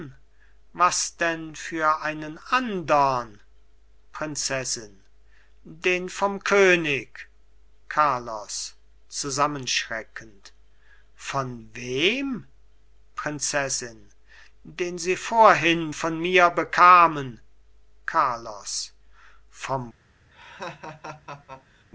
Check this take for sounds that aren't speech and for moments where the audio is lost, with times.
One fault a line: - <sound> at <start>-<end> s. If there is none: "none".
- laugh at 20.3-21.8 s